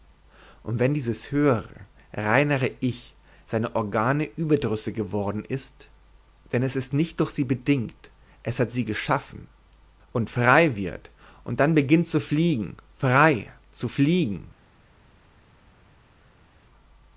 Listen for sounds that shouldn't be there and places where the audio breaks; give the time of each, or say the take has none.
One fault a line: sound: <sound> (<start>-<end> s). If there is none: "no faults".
no faults